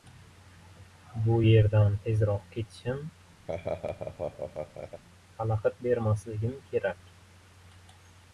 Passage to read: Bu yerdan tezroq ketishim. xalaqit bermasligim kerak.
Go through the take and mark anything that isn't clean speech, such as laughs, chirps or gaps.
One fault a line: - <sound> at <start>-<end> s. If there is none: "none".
- laugh at 3.5-5.0 s